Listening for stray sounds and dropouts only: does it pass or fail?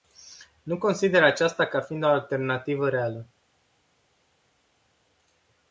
pass